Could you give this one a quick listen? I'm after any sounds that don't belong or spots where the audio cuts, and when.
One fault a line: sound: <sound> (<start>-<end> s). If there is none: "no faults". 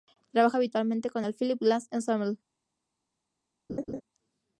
sound: laugh (3.7-4.0 s)